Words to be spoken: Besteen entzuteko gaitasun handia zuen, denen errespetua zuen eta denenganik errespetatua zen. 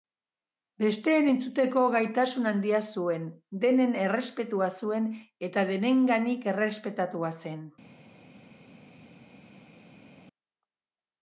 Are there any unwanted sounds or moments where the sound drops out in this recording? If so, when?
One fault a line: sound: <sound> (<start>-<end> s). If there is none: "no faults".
no faults